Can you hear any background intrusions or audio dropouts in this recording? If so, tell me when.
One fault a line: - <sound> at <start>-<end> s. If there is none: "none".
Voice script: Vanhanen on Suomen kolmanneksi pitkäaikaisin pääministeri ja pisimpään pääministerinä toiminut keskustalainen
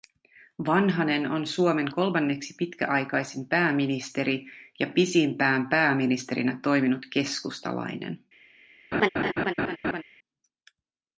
- laugh at 8.9-10.0 s